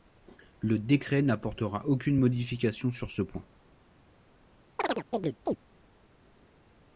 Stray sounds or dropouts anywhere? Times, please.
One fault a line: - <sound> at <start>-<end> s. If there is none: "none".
- chirp at 4.8-5.6 s